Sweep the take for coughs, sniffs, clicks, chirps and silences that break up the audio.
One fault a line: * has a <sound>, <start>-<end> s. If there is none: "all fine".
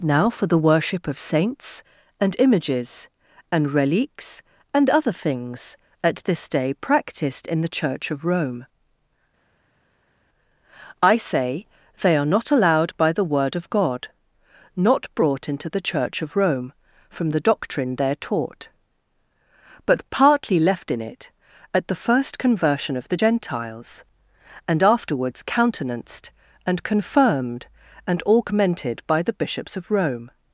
all fine